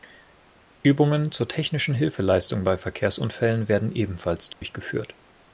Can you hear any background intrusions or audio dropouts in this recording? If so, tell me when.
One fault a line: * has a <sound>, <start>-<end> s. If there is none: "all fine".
* has a dropout, 4.5-4.6 s